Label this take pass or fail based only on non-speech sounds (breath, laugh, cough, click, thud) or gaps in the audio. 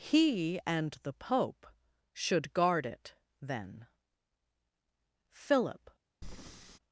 fail